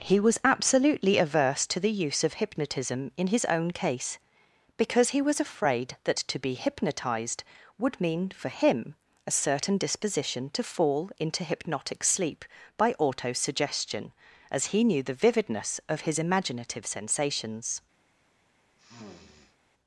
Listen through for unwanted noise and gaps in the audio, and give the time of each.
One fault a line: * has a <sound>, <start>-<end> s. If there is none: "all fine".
* has a sniff, 18.8-19.6 s